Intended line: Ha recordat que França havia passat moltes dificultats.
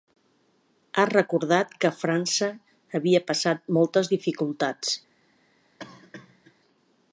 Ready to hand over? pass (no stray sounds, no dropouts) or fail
fail